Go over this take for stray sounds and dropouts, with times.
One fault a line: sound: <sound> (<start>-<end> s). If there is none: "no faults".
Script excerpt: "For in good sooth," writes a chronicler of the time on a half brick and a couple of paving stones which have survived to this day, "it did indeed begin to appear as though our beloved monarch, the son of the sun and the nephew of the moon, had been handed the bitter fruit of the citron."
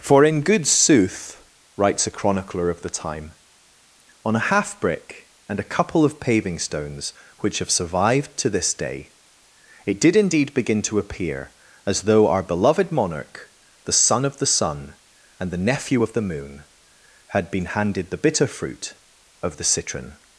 no faults